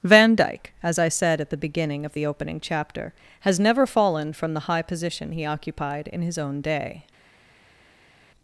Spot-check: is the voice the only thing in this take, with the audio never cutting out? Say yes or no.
yes